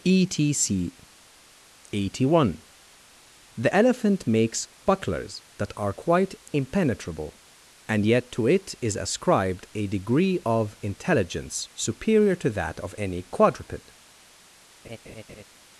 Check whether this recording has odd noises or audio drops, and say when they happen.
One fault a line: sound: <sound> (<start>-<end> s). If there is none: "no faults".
sound: laugh (14.8-15.4 s)